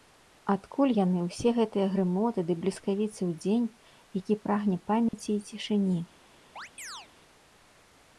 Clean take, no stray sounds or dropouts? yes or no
no